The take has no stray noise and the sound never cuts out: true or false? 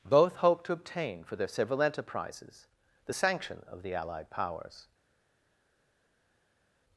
true